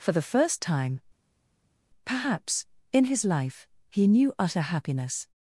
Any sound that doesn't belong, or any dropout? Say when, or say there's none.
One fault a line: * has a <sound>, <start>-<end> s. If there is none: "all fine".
all fine